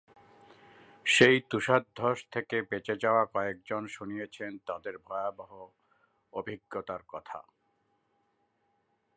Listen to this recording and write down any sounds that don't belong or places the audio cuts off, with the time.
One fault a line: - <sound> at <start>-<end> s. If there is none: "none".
none